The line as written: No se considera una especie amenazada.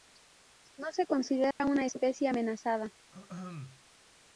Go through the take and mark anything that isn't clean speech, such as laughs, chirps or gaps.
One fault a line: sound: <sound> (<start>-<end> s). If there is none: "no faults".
sound: dropout (1.5-1.6 s)
sound: throat clearing (3.1-3.8 s)